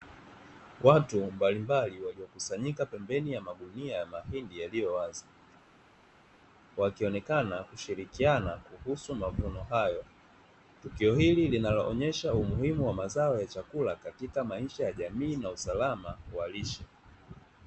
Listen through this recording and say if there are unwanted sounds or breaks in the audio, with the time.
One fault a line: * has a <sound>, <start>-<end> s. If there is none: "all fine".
all fine